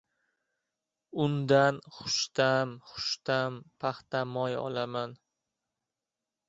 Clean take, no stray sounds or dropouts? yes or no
yes